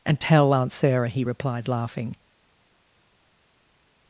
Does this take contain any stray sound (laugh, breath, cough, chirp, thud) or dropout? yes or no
no